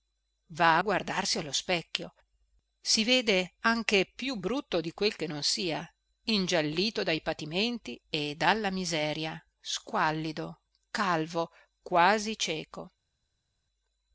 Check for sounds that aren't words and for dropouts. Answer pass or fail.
pass